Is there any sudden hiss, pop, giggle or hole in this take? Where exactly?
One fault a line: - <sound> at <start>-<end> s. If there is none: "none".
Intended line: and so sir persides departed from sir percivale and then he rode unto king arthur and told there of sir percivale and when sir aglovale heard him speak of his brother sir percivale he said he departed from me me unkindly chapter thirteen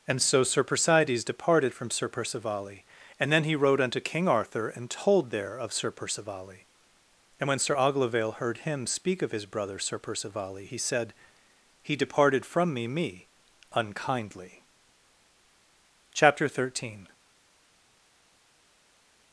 none